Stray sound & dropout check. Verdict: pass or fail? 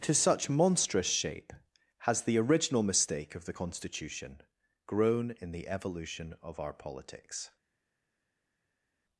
pass